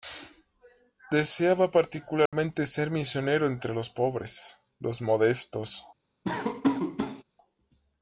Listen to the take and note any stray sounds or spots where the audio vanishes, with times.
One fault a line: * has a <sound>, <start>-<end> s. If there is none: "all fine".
* has a dropout, 2.3-2.3 s
* has a laugh, 6.2-7.2 s